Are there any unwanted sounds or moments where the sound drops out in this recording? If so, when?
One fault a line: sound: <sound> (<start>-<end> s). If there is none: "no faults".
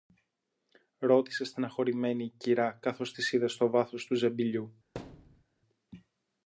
sound: thud (4.9-5.4 s)